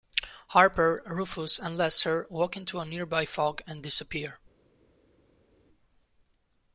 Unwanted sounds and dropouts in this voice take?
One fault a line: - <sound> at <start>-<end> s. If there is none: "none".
none